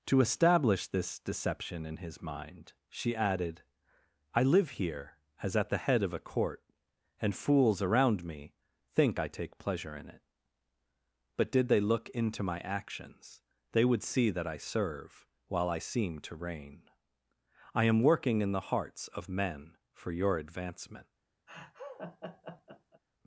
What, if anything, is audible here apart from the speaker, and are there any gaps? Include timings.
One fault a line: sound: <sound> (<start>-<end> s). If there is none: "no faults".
sound: laugh (21.5-23.0 s)